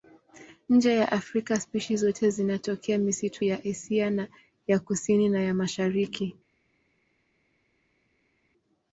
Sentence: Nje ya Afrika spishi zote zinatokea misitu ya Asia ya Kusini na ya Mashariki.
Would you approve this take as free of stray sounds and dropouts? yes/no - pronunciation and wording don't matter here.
yes